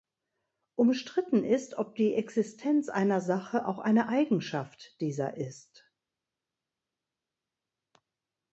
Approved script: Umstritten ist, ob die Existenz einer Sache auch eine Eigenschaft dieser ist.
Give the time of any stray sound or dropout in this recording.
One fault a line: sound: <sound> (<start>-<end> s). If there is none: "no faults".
no faults